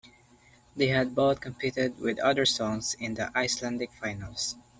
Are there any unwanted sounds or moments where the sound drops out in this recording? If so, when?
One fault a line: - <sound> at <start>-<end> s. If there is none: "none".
none